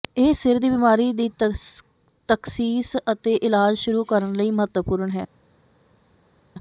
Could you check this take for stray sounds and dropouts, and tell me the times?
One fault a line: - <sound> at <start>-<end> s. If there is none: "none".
none